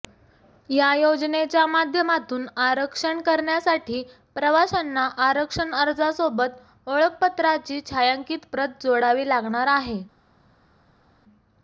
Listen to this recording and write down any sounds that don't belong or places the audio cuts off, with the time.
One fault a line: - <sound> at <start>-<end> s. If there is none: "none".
none